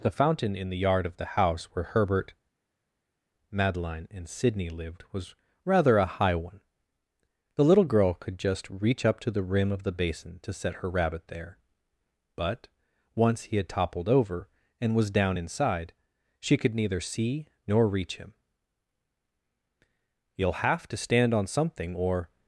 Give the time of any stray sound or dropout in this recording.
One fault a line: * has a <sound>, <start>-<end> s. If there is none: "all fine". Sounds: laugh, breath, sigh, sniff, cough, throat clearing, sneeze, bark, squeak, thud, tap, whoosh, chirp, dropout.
all fine